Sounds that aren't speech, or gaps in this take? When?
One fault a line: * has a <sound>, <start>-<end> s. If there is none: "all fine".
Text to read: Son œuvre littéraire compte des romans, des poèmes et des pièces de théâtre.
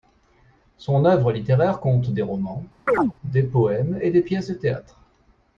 * has a chirp, 2.9-3.1 s